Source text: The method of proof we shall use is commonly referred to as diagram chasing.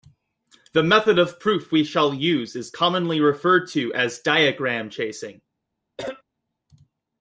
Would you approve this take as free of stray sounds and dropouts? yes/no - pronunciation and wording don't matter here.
no